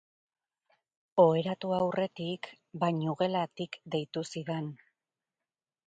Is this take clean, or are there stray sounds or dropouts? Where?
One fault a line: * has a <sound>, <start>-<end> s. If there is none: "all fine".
all fine